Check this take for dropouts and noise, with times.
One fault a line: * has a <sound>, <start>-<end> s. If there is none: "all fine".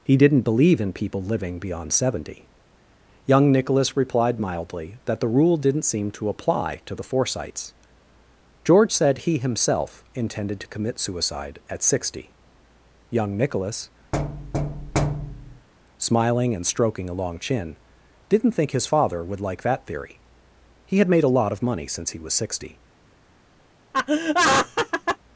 * has a thud, 14.1-15.7 s
* has a laugh, 23.9-25.2 s